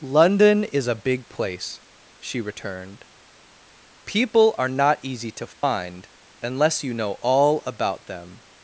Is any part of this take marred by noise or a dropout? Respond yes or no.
yes